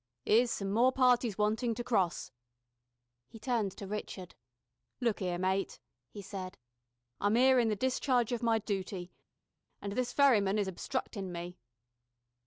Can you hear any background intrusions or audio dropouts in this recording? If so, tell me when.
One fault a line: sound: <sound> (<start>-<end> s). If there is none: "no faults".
no faults